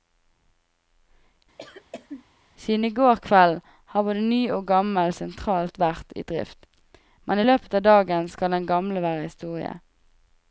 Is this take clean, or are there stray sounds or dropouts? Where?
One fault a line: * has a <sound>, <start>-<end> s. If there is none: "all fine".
* has a cough, 1.6-2.3 s